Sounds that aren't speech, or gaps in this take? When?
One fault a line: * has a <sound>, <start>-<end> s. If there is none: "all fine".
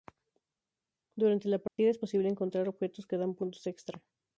* has a dropout, 1.7-1.8 s